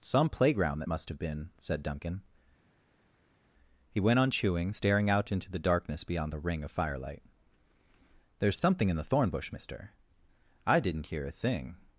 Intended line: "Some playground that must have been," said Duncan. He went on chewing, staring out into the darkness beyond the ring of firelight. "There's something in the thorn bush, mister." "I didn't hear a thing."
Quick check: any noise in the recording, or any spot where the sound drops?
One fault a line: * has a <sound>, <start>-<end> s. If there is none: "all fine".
all fine